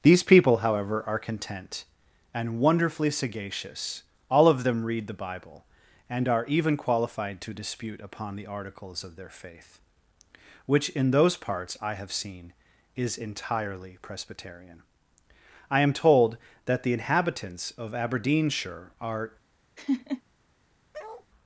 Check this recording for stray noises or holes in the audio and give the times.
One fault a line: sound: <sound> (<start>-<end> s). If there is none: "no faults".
sound: laugh (19.8-20.2 s)
sound: bark (20.9-21.3 s)